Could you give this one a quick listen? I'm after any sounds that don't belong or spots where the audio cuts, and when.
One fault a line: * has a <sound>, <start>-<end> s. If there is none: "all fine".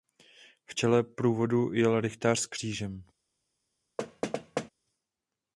* has a thud, 4.0-4.7 s